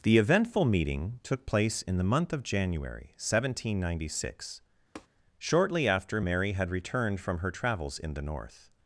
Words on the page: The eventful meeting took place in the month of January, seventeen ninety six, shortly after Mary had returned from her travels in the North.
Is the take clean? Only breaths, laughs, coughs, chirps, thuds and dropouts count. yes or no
no